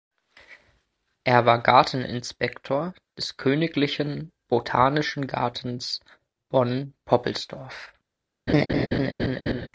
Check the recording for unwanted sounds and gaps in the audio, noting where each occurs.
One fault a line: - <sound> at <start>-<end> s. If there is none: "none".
- laugh at 8.5-9.7 s